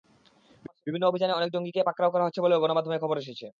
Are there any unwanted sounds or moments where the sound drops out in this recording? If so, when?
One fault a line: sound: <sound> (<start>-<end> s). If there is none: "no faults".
no faults